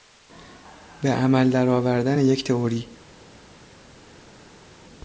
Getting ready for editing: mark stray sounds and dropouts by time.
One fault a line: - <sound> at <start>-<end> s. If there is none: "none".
none